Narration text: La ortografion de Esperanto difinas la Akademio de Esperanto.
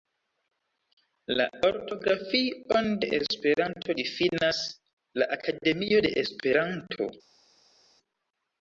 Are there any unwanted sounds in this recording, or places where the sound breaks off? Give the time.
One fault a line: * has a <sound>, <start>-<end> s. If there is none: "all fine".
all fine